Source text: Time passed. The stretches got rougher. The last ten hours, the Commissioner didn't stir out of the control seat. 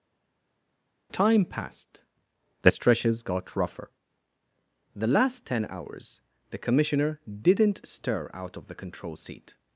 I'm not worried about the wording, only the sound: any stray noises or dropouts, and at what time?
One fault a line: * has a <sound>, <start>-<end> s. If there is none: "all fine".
all fine